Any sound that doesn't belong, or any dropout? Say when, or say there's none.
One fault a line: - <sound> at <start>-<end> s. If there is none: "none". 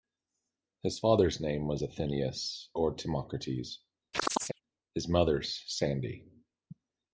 - chirp at 4.1-4.6 s